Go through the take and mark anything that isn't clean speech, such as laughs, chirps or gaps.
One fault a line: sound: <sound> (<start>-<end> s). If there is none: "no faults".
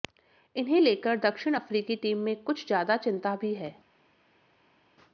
no faults